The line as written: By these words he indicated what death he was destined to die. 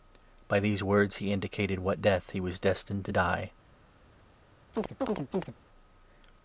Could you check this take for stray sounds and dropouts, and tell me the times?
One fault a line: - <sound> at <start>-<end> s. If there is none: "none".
- chirp at 4.7-5.5 s